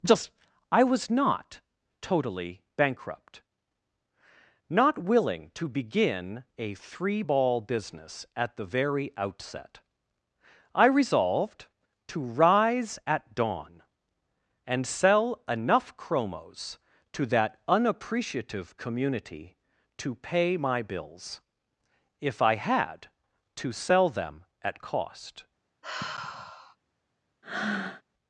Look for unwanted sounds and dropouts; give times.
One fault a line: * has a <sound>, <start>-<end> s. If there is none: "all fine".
* has a sigh, 25.8-26.8 s
* has a breath, 27.4-28.0 s